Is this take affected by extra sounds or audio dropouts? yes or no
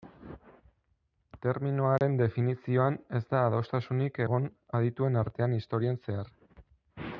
yes